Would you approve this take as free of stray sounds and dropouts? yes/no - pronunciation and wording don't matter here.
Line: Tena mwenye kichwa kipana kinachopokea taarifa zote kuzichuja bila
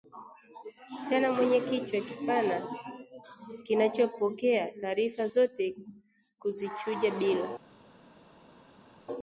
yes